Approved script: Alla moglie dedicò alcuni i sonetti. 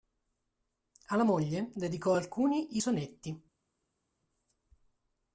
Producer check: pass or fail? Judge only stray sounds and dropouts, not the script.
pass